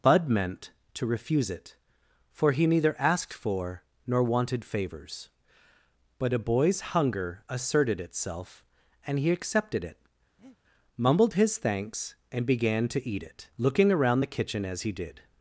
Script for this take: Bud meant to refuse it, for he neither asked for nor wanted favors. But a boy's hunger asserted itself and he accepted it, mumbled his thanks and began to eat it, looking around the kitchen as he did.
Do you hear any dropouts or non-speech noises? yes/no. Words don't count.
yes